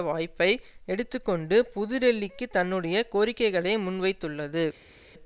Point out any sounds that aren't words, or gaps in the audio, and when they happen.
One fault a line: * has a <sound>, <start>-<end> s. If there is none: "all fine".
all fine